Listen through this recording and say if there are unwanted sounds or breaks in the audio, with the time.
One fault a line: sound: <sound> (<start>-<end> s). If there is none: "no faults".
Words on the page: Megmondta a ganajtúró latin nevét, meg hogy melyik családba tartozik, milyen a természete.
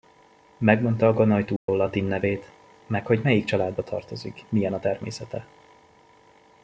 sound: dropout (1.6-1.7 s)